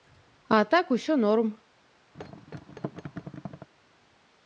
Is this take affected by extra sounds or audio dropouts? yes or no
yes